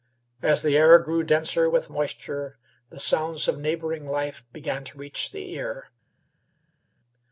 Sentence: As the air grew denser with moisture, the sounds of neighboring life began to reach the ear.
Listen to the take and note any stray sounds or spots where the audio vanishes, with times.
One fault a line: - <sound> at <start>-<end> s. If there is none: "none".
none